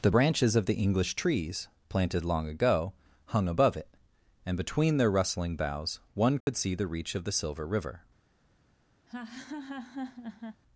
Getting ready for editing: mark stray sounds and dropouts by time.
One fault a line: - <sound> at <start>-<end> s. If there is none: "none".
- dropout at 6.4-6.5 s
- laugh at 9.1-10.6 s